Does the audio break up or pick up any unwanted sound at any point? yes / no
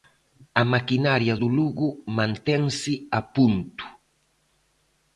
no